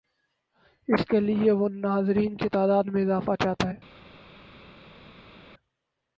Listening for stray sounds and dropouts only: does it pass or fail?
pass